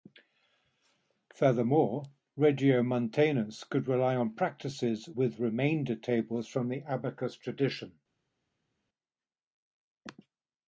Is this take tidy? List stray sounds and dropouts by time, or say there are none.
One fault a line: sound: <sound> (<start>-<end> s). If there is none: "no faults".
no faults